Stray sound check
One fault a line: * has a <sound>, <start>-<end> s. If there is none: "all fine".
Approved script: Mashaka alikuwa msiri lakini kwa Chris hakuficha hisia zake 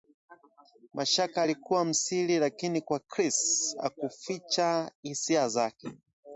all fine